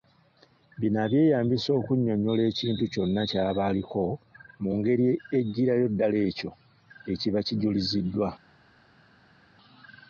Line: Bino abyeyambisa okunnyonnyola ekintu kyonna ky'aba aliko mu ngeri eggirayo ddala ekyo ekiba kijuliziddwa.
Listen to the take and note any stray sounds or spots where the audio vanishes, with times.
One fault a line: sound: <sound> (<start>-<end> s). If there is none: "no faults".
no faults